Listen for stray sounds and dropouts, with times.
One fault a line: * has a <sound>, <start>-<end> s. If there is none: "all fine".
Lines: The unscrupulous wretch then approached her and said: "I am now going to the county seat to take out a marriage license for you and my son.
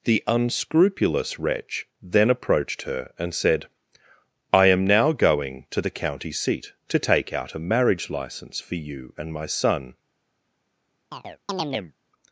* has a chirp, 11.1-11.9 s